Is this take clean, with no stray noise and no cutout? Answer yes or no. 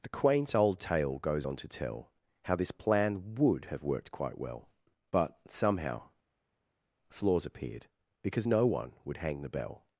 yes